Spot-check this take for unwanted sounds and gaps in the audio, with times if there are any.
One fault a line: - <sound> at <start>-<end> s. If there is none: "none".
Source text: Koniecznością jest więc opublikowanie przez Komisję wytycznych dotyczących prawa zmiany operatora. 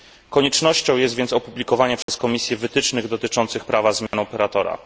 - dropout at 2.0-2.1 s
- dropout at 4.1-4.1 s